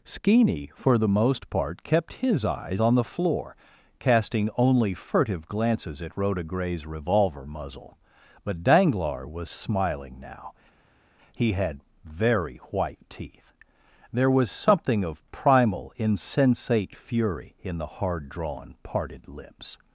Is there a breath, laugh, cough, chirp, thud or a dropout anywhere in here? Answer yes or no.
no